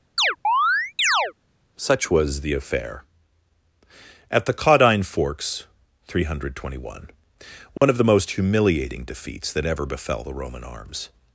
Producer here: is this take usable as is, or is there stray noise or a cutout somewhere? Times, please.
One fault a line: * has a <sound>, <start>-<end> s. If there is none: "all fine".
* has a chirp, 0.2-1.3 s
* has a dropout, 7.8-7.8 s